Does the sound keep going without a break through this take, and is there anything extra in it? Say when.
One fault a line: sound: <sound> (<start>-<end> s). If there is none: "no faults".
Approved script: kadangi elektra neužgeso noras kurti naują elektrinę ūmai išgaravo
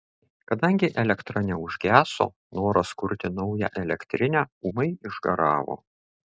no faults